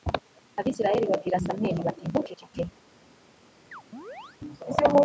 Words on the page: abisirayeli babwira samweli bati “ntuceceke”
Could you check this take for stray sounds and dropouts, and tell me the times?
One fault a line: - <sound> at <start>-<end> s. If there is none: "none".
- chirp at 3.7-4.4 s